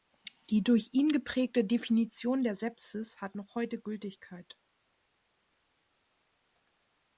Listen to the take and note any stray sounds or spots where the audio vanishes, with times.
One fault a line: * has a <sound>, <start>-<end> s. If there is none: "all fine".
all fine